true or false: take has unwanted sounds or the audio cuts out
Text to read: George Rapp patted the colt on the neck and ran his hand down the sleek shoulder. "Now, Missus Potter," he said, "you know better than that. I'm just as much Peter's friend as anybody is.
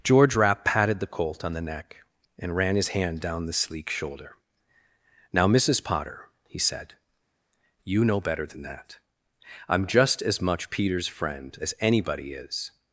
false